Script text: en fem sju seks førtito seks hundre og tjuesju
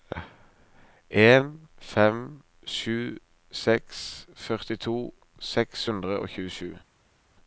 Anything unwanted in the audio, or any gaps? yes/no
no